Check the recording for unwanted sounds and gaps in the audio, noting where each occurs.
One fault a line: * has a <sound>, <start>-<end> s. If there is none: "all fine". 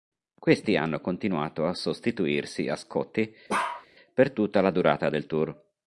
* has a bark, 3.5-3.9 s